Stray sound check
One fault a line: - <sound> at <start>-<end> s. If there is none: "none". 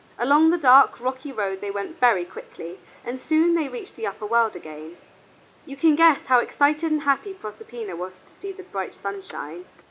none